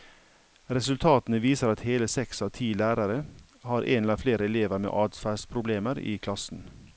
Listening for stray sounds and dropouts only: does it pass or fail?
pass